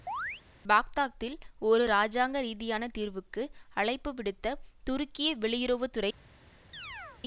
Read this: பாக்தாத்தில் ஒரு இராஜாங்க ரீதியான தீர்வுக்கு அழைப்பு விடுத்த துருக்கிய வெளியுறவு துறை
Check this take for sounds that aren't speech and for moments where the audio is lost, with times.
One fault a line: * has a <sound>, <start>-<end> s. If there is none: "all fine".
* has a chirp, 0.1-0.4 s
* has a chirp, 6.7-7.2 s